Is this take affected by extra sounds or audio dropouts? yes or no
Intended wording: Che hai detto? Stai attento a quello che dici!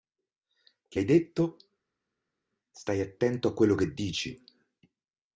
no